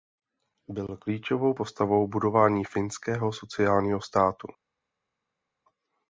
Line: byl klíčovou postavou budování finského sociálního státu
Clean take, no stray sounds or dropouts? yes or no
yes